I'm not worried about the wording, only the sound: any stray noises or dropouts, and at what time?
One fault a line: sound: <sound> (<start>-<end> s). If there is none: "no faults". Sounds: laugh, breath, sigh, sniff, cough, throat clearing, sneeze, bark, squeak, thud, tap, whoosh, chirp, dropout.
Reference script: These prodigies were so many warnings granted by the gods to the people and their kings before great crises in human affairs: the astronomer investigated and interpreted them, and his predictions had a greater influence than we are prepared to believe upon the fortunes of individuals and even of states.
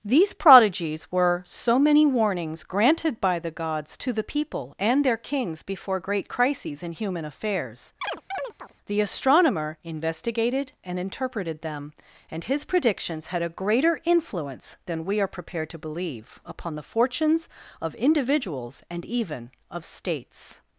sound: chirp (8.0-8.7 s)